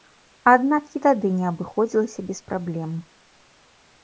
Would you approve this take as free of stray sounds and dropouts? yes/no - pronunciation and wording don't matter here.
yes